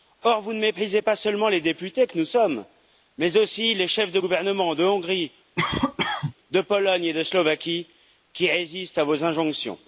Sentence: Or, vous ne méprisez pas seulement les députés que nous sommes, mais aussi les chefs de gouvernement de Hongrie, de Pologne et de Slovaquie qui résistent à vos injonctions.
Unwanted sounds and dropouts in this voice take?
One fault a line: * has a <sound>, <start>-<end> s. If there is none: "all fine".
* has a cough, 5.6-6.3 s